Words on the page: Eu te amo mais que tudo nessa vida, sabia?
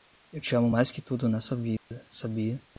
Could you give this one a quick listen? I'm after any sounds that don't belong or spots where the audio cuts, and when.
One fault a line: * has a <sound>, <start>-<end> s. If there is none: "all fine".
* has a dropout, 1.8-1.9 s